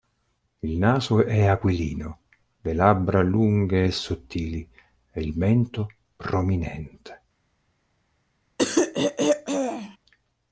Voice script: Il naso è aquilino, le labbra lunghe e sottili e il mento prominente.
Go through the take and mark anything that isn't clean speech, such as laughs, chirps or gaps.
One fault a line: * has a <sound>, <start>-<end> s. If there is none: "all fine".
* has a throat clearing, 8.6-10.0 s